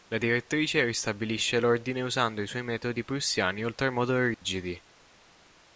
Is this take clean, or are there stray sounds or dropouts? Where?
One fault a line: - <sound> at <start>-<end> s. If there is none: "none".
- dropout at 4.3-4.4 s